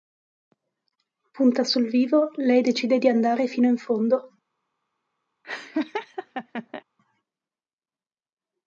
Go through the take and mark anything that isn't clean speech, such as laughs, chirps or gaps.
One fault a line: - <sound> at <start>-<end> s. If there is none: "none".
- laugh at 5.4-6.8 s